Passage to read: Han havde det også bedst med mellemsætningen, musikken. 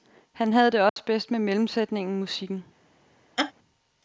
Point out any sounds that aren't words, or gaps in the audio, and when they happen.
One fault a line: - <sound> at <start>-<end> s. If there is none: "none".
- dropout at 0.9-1.0 s
- laugh at 3.4-3.5 s